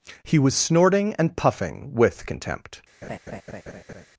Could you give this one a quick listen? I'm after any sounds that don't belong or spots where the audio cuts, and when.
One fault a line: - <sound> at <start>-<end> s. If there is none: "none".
- laugh at 3.0-4.1 s